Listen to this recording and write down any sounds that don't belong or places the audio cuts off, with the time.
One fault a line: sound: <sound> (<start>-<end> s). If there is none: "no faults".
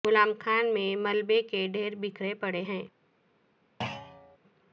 sound: thud (3.8-4.4 s)